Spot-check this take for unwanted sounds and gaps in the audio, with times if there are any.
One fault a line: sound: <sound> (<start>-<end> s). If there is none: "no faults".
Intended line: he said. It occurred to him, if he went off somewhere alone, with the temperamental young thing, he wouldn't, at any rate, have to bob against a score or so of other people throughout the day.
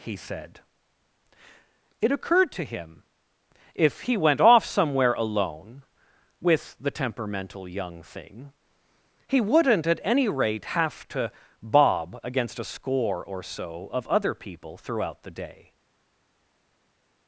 no faults